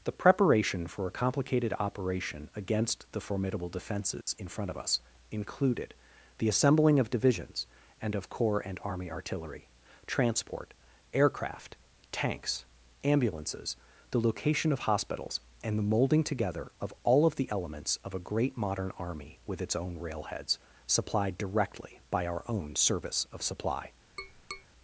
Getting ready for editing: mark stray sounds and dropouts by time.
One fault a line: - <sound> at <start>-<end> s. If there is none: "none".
- dropout at 4.2-4.3 s
- tap at 24.2-24.7 s